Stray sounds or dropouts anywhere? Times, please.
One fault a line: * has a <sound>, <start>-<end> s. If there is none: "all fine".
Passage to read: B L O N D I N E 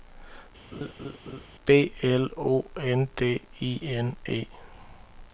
* has a laugh, 0.7-1.5 s